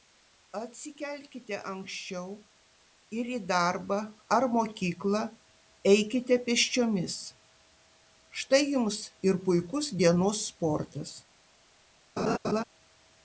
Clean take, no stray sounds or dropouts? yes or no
no